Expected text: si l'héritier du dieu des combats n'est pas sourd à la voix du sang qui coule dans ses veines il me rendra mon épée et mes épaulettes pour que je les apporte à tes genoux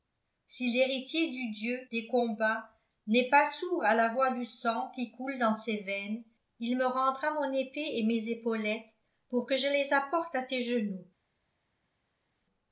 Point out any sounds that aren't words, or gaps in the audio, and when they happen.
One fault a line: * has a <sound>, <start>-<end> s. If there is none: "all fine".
all fine